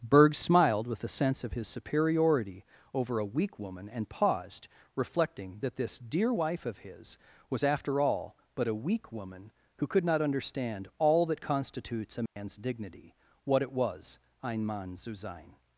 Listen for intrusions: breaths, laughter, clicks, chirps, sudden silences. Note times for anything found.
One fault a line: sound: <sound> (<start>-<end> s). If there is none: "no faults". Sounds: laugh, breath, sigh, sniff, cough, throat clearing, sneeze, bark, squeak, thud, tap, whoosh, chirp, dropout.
sound: dropout (12.3-12.4 s)